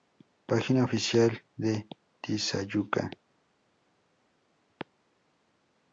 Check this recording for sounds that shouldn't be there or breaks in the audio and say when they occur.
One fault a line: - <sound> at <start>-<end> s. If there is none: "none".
none